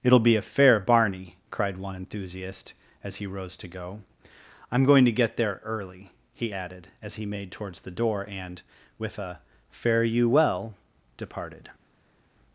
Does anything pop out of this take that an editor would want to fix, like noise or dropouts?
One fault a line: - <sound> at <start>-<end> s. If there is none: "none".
none